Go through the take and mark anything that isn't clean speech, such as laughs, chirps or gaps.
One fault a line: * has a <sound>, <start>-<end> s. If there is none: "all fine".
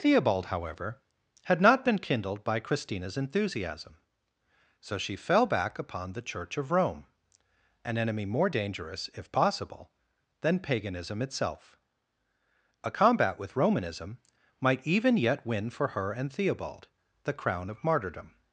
all fine